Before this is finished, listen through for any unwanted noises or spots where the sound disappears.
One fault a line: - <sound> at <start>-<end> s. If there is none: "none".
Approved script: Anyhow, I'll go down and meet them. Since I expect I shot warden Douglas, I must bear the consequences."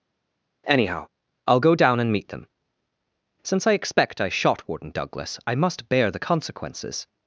none